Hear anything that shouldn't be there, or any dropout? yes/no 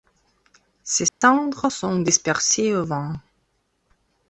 yes